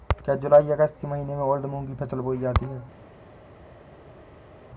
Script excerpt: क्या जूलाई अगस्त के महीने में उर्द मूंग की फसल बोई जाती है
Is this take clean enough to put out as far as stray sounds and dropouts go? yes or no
yes